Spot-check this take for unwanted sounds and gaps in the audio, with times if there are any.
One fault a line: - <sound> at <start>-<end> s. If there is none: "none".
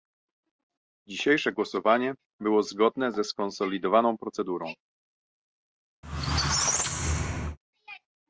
- squeak at 6.0-7.6 s